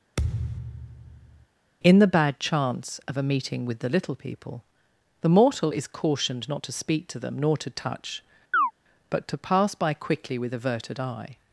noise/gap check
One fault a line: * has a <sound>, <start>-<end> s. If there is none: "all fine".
* has a thud, 0.2-1.5 s
* has a chirp, 8.5-8.7 s